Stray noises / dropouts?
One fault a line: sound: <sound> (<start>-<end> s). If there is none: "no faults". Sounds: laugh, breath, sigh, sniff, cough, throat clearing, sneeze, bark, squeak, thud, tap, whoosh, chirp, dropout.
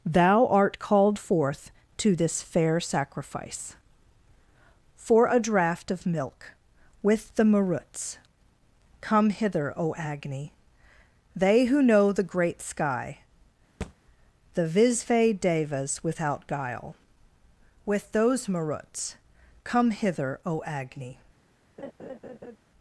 sound: thud (13.8-13.9 s)
sound: laugh (21.8-22.6 s)